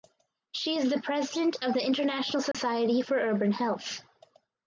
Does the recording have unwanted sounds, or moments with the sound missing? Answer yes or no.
yes